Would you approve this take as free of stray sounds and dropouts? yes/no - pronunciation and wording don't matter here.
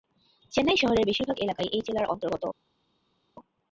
yes